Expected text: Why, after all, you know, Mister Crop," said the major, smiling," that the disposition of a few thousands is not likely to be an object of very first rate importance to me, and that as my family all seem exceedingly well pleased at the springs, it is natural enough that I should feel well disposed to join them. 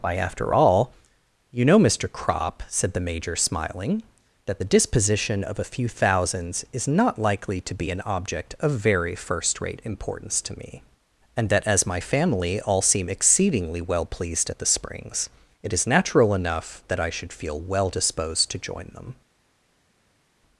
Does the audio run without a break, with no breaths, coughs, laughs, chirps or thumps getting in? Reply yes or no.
yes